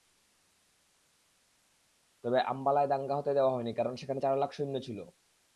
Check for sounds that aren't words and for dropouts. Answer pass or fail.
pass